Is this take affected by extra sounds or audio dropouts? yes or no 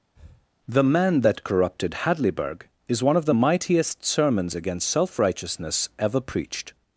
yes